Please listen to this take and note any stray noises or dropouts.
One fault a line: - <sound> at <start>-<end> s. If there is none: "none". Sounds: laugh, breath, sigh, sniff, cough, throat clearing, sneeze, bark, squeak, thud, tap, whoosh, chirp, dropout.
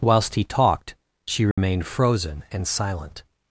- dropout at 1.5-1.6 s